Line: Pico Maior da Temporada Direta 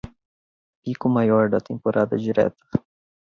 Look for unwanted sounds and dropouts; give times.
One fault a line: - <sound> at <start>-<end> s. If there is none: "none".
none